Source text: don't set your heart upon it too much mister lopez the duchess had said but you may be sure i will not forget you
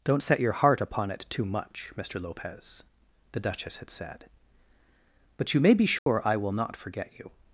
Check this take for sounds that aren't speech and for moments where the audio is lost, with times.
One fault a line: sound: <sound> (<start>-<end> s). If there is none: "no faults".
sound: dropout (6.0-6.1 s)